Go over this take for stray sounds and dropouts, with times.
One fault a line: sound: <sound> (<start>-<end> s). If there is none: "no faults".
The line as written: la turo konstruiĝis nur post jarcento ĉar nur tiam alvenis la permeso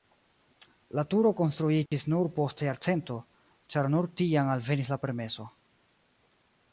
sound: dropout (1.9-1.9 s)